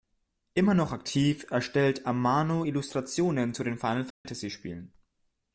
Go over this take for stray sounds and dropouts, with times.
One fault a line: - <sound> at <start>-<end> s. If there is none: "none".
- dropout at 4.1-4.3 s